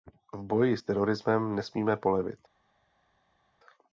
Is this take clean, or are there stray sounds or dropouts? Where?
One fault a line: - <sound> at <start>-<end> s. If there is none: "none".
none